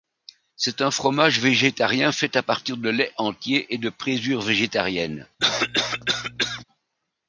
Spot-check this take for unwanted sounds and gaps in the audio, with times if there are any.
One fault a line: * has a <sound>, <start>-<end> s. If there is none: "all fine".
* has a cough, 5.4-6.6 s